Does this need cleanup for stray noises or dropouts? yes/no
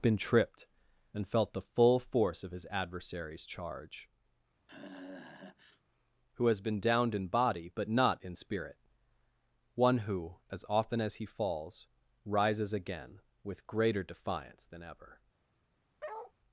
yes